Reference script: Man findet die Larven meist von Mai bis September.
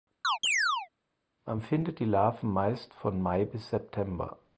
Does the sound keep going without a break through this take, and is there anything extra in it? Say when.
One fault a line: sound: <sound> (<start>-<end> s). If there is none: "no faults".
sound: chirp (0.2-0.9 s)